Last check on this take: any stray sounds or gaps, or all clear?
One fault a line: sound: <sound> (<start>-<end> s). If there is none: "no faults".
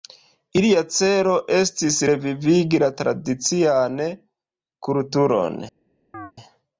sound: chirp (6.1-6.3 s)